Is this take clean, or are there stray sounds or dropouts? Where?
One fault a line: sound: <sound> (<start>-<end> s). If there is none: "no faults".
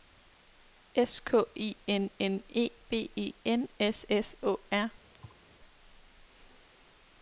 sound: thud (5.1-5.4 s)